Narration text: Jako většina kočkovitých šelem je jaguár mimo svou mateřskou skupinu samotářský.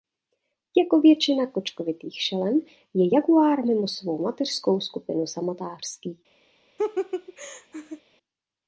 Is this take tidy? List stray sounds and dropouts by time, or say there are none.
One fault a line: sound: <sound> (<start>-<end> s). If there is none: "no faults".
sound: laugh (6.8-8.0 s)